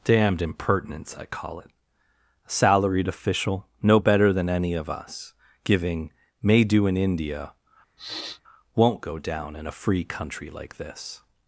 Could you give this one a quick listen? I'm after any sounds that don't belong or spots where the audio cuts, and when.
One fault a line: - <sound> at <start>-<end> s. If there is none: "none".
- sniff at 8.0-8.4 s